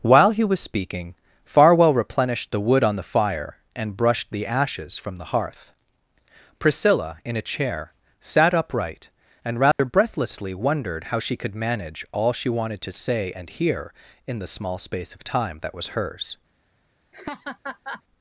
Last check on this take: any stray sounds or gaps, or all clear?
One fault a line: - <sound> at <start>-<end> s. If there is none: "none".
- dropout at 9.7-9.8 s
- laugh at 17.1-18.0 s